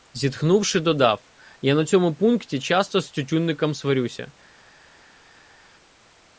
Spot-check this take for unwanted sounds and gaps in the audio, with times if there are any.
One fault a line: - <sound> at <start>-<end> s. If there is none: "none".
none